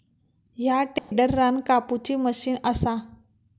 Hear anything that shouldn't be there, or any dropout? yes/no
yes